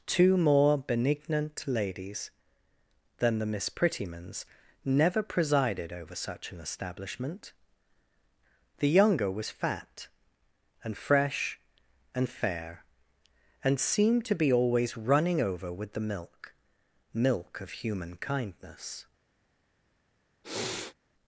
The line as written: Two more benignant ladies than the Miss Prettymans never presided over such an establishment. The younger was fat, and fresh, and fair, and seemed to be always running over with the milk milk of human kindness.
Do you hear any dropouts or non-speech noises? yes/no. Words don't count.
yes